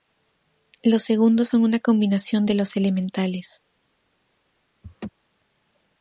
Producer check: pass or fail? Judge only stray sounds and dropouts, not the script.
fail